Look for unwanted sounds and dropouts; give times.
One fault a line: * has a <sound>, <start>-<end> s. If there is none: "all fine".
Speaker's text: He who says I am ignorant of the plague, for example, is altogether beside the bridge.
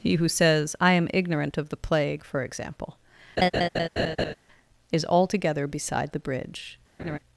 * has a laugh, 3.4-4.3 s
* has a laugh, 7.0-7.2 s